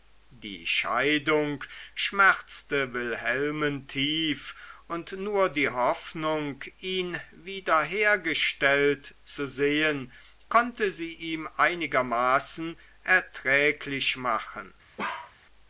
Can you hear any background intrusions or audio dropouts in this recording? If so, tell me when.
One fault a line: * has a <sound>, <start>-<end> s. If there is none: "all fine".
* has a bark, 15.0-15.3 s